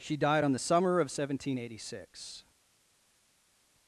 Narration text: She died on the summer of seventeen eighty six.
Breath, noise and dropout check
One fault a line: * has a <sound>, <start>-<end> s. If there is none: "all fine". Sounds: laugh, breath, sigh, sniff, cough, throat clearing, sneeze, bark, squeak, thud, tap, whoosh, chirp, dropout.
all fine